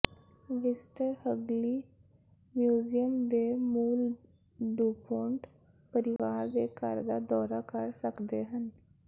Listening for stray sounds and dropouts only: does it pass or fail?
fail